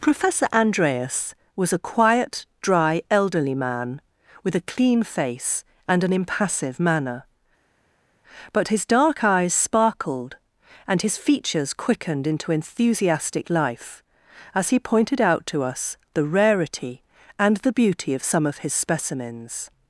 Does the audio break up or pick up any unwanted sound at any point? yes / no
no